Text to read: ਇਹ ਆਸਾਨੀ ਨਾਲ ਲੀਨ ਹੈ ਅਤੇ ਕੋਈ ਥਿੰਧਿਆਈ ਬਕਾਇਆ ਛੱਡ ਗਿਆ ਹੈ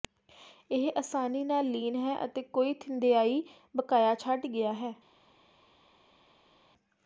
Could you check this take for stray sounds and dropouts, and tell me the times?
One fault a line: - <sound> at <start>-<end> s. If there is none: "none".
none